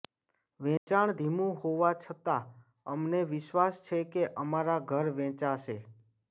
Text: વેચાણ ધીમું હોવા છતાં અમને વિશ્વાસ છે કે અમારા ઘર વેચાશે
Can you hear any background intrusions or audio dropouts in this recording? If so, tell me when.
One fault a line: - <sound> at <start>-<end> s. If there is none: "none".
- dropout at 0.8-0.9 s